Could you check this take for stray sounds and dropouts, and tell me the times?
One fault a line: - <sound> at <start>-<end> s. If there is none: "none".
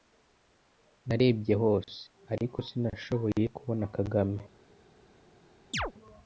- chirp at 5.7-5.9 s